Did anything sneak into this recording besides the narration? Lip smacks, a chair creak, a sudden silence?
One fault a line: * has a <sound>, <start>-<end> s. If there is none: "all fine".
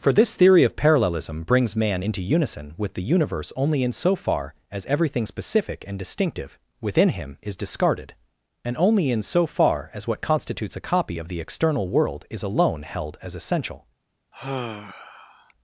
* has a sigh, 14.3-15.5 s